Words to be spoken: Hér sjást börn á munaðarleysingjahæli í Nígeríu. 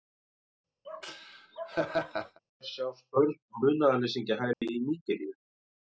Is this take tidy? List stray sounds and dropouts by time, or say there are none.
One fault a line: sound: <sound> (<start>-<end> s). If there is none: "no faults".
sound: laugh (0.8-2.4 s)
sound: dropout (4.5-4.6 s)